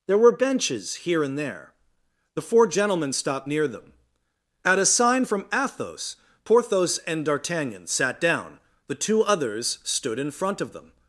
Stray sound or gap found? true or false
false